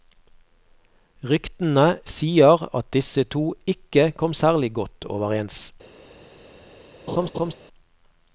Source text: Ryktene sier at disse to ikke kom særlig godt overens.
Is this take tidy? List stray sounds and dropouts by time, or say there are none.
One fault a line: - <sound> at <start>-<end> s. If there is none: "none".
- laugh at 7.1-7.5 s